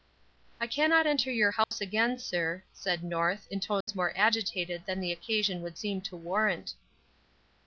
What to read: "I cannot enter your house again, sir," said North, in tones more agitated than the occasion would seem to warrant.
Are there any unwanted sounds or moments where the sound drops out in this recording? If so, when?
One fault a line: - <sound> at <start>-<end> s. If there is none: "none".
- dropout at 1.6-1.7 s
- dropout at 3.8-3.9 s